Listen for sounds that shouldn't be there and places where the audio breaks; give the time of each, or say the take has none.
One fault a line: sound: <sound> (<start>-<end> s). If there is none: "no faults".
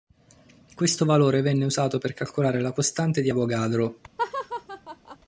sound: laugh (4.2-5.2 s)